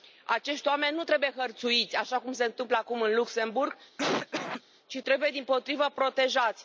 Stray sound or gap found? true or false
true